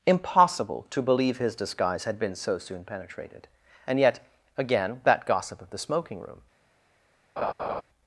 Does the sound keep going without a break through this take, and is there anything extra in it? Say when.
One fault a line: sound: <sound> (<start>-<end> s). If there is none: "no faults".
sound: laugh (7.4-7.8 s)